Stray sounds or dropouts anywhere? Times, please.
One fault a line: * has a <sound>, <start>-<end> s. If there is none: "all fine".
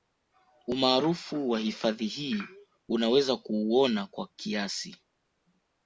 all fine